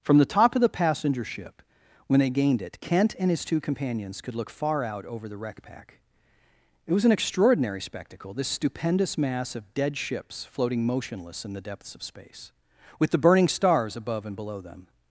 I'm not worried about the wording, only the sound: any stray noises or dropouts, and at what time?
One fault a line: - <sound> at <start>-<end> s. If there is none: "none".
none